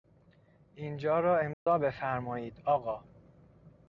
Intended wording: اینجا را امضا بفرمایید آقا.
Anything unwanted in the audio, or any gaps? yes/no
yes